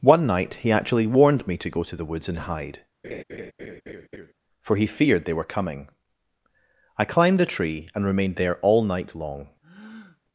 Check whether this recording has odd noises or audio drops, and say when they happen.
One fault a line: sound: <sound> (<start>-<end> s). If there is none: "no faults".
sound: laugh (3.0-4.3 s)
sound: breath (9.6-10.2 s)